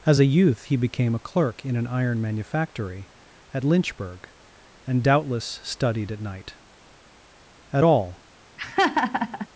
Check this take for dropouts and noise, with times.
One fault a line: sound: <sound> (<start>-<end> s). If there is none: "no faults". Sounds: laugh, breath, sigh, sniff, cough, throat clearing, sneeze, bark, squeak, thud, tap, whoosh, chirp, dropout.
sound: laugh (8.6-9.5 s)